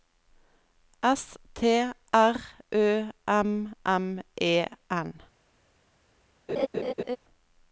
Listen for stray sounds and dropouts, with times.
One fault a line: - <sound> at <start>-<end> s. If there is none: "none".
- laugh at 6.5-7.2 s